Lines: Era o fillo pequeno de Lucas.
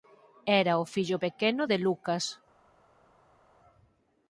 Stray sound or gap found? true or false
false